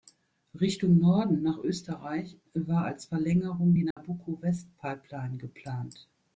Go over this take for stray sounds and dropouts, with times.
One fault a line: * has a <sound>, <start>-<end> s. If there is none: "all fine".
* has a dropout, 3.9-4.0 s